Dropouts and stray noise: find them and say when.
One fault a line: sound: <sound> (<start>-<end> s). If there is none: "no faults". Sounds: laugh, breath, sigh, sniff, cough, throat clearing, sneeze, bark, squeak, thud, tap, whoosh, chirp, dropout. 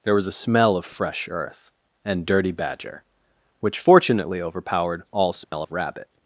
sound: dropout (5.4-5.5 s)